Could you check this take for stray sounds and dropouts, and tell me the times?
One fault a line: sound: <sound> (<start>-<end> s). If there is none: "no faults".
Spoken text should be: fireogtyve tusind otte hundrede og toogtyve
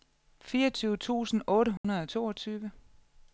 sound: dropout (1.8-1.8 s)